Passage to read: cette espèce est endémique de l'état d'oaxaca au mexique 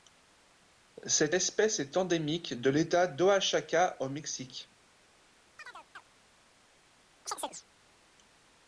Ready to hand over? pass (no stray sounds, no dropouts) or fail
fail